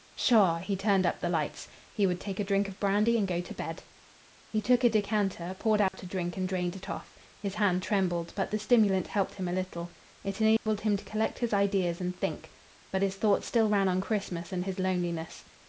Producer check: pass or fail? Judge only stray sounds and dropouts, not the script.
fail